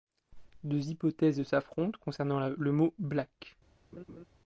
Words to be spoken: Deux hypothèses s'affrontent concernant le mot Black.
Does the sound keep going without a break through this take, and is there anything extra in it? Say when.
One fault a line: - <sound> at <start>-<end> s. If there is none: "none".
- laugh at 3.9-4.2 s